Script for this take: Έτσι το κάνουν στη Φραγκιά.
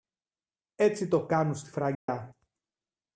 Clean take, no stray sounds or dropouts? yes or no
no